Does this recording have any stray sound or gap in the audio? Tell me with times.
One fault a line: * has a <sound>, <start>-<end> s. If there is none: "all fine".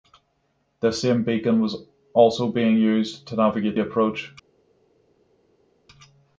all fine